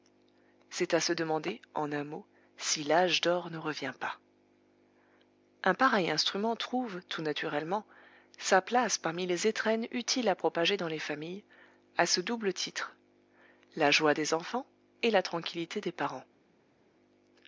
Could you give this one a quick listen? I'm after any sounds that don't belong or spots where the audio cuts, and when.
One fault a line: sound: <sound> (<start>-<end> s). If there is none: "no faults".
no faults